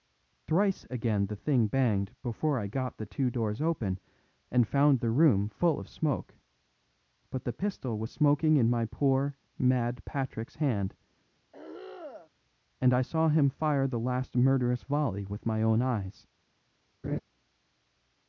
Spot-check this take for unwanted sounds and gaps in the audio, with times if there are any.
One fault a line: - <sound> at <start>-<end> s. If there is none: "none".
- throat clearing at 11.5-12.3 s
- laugh at 17.0-17.2 s